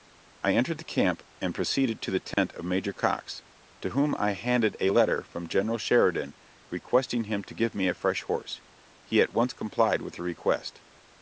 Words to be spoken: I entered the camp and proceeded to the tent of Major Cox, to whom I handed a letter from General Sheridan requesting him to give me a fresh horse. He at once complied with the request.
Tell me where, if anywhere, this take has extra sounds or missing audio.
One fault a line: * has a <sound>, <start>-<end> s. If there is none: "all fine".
* has a dropout, 2.3-2.4 s